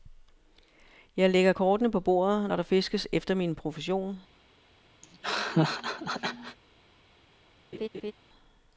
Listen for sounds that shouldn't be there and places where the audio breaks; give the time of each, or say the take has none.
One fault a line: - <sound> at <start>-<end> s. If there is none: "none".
- laugh at 5.0-6.6 s
- laugh at 7.7-8.1 s